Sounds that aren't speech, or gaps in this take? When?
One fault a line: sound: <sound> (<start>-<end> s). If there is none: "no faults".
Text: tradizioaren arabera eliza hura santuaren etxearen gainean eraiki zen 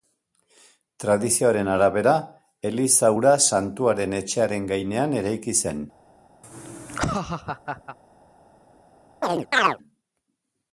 sound: laugh (6.4-8.0 s)
sound: chirp (9.2-9.8 s)